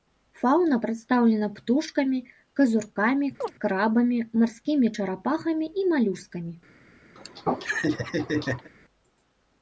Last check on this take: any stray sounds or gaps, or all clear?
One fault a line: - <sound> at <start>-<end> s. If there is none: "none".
- chirp at 3.4-3.6 s
- laugh at 7.2-8.7 s